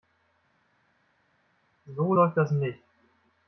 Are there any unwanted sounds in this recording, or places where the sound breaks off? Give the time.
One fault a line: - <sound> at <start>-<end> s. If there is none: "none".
none